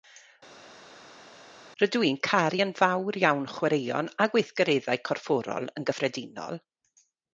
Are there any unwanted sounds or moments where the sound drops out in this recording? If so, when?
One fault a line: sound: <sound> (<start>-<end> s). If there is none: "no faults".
no faults